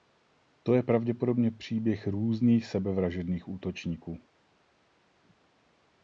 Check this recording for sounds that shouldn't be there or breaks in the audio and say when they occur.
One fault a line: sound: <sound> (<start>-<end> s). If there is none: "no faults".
no faults